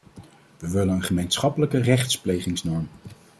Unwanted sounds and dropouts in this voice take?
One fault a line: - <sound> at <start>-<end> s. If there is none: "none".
none